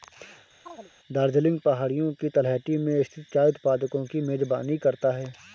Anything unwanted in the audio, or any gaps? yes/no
yes